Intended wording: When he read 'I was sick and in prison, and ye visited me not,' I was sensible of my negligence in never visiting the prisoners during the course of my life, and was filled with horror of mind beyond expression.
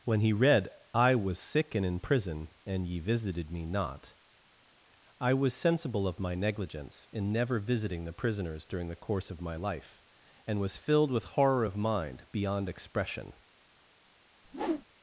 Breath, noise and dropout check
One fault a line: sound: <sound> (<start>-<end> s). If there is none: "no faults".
sound: whoosh (14.4-14.9 s)